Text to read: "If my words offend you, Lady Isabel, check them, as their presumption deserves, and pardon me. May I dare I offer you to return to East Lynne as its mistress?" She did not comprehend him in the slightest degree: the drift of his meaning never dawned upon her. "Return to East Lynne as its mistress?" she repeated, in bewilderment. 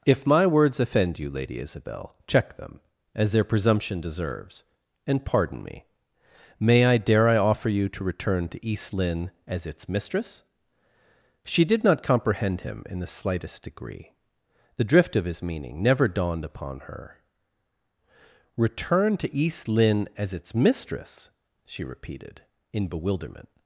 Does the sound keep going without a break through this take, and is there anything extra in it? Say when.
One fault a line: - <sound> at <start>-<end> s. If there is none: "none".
none